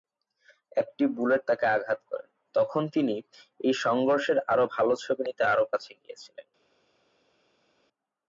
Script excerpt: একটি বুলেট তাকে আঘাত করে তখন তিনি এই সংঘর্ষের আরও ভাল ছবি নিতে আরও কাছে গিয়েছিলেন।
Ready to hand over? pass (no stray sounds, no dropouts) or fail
pass